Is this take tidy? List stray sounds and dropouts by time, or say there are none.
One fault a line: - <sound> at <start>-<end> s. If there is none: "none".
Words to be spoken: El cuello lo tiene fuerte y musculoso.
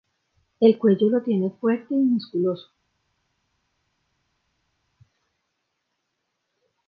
none